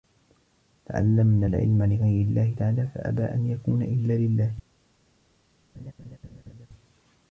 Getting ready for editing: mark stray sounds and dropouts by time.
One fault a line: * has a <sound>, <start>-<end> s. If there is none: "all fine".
* has a laugh, 5.7-6.7 s